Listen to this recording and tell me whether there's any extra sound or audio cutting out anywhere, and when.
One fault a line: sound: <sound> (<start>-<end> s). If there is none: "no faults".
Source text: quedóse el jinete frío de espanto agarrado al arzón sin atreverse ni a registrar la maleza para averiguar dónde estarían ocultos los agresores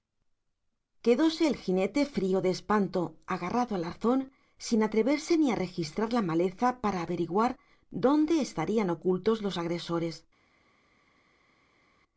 no faults